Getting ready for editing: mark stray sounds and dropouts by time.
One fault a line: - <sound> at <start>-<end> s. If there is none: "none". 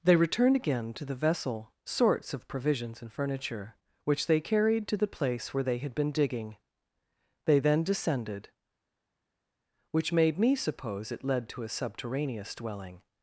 none